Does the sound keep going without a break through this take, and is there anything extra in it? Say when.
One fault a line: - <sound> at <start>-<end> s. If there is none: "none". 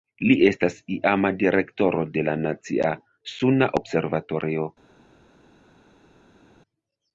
none